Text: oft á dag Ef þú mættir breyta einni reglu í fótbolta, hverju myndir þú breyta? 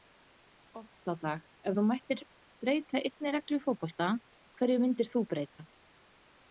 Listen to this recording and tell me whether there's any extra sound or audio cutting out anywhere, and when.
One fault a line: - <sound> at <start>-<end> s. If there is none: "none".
none